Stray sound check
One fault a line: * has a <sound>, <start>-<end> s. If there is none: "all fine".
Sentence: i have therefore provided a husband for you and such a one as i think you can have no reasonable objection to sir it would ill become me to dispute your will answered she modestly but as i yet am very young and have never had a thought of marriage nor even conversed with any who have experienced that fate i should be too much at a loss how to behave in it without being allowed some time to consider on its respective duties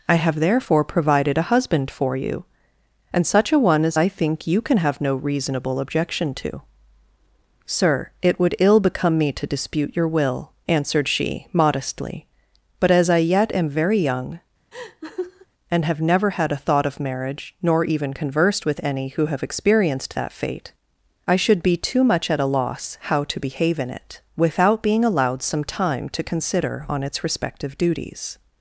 * has a laugh, 14.7-15.5 s